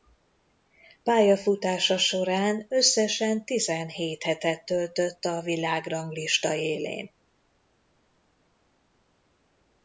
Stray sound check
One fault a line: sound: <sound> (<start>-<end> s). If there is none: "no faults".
no faults